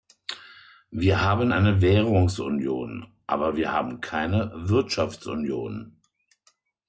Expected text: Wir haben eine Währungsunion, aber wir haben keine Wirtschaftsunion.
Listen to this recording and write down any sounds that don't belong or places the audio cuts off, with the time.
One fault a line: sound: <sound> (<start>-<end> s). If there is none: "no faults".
no faults